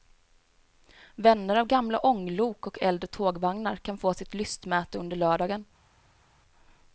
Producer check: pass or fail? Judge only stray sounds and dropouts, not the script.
pass